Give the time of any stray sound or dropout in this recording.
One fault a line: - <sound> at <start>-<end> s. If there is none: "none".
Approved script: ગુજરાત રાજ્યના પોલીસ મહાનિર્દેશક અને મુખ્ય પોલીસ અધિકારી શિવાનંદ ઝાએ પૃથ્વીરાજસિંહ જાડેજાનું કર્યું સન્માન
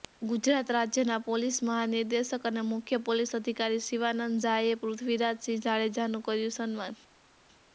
none